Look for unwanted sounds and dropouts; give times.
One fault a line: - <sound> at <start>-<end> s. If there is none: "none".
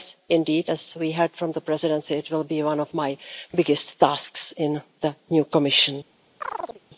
- chirp at 6.4-6.8 s